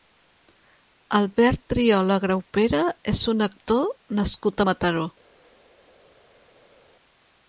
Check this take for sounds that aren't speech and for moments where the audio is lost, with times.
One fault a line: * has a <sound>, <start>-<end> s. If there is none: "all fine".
all fine